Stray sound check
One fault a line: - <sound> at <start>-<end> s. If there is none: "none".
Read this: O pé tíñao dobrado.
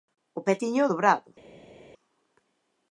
none